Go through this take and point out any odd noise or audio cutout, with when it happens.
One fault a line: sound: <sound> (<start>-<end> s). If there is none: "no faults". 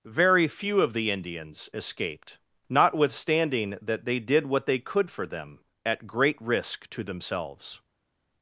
no faults